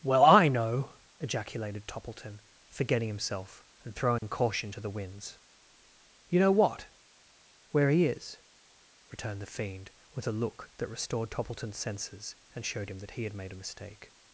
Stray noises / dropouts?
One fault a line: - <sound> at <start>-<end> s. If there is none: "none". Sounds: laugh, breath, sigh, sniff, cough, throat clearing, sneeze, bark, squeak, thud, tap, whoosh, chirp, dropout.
- dropout at 4.2-4.2 s